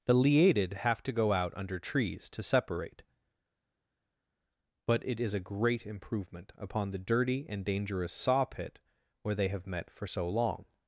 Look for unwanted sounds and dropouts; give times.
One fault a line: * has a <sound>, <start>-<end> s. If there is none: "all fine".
all fine